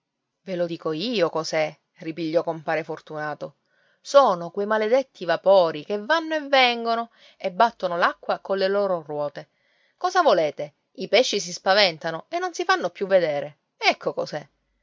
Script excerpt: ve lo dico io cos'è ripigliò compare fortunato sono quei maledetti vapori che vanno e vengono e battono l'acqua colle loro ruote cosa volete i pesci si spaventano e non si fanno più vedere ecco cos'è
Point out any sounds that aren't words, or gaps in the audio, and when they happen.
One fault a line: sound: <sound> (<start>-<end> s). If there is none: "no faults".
no faults